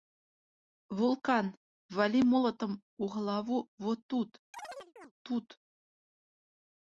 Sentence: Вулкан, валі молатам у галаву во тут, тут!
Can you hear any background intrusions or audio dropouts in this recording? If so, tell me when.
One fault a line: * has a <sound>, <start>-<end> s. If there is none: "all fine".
* has a chirp, 4.5-5.1 s